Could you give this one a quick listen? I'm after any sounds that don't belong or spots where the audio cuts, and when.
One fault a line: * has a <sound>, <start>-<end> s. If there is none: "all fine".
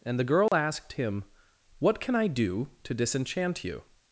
* has a dropout, 0.5-0.5 s